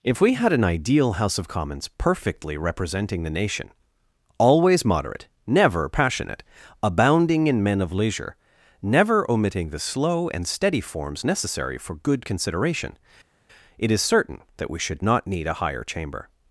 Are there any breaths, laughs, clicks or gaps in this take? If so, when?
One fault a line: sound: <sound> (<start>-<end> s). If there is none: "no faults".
no faults